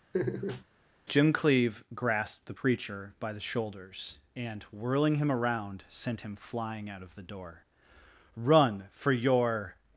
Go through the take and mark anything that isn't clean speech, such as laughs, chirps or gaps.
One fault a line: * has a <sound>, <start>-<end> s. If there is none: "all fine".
* has a laugh, 0.1-0.6 s